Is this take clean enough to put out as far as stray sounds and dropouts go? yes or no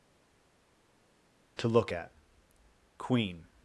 yes